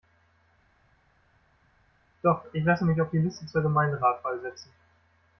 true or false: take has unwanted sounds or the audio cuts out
false